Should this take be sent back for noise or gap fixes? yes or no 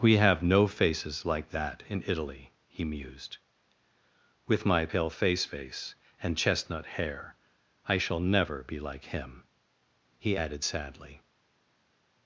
no